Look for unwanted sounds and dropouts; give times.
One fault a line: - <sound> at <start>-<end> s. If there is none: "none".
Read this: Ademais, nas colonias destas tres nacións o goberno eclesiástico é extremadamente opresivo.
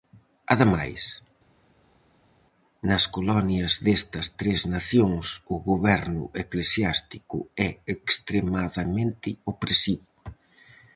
none